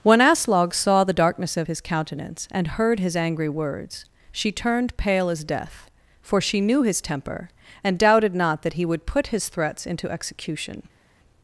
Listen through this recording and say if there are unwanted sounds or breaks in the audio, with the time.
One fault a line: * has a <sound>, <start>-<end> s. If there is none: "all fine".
all fine